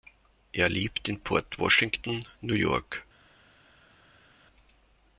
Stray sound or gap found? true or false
false